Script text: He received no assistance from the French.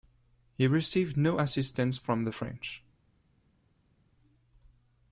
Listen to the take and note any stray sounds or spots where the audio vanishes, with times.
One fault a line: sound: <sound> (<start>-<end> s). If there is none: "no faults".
no faults